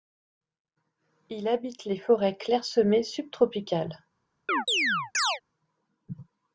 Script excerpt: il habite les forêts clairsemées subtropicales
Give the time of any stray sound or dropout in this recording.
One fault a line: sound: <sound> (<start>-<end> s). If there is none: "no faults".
sound: chirp (4.5-5.4 s)